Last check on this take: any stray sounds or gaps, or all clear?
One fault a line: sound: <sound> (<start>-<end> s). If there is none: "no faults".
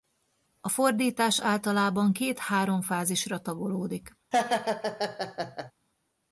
sound: laugh (4.3-5.7 s)